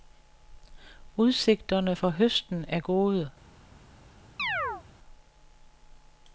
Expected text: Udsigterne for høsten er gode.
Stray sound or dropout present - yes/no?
yes